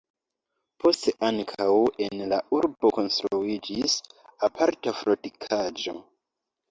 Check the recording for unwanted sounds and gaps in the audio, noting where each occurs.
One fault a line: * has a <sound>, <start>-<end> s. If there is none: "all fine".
all fine